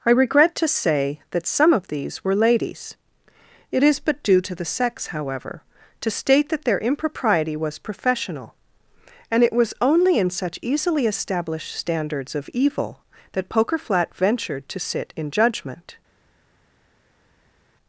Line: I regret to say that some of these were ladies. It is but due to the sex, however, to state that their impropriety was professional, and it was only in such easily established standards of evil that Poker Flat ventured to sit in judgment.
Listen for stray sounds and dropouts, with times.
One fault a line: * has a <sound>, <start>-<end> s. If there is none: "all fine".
all fine